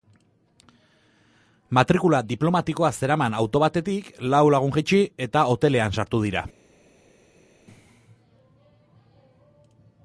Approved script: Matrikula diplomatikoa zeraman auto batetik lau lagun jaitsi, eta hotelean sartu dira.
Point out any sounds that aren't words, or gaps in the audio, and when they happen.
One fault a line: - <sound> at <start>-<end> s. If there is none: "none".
none